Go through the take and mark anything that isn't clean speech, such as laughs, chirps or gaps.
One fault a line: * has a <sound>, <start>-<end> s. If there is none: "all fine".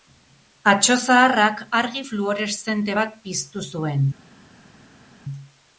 all fine